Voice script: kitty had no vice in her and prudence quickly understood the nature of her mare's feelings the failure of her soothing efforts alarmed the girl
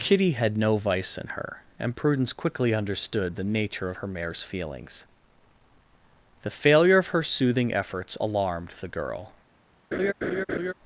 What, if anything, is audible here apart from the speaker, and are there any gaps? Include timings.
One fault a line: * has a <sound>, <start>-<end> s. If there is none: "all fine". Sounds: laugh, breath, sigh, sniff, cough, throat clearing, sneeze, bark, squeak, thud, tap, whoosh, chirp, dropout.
* has a laugh, 9.9-10.7 s